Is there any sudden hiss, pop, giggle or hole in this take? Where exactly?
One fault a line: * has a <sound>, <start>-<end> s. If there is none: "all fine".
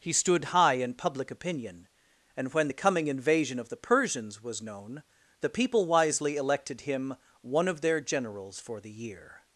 all fine